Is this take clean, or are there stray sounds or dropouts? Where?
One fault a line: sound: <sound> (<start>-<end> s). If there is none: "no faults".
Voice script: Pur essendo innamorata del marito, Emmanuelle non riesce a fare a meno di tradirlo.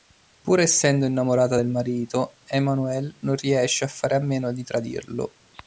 no faults